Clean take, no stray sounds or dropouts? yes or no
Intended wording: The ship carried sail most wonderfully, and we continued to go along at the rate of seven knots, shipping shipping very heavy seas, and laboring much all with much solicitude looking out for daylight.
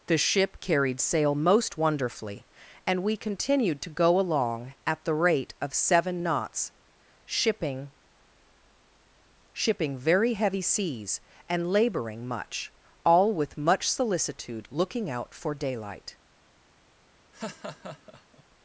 no